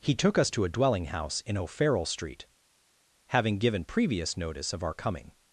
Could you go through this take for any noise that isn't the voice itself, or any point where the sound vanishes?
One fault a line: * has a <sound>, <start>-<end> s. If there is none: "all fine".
all fine